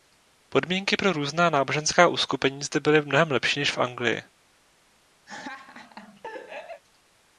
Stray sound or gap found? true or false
true